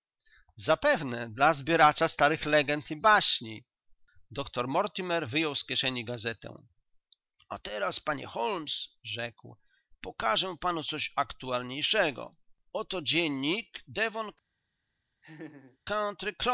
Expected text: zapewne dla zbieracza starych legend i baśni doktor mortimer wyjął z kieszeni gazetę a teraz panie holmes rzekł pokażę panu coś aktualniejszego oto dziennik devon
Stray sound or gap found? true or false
true